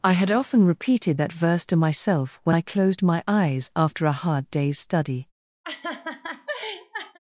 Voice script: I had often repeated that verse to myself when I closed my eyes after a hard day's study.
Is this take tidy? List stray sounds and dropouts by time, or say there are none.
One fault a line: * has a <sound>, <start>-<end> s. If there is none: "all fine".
* has a laugh, 5.6-7.2 s